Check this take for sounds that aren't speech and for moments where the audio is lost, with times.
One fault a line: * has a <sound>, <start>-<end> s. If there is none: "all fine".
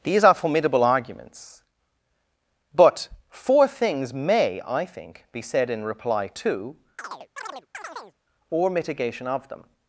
* has a chirp, 7.0-8.2 s